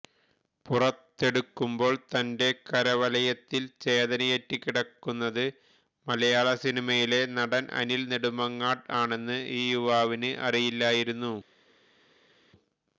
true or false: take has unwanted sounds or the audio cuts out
false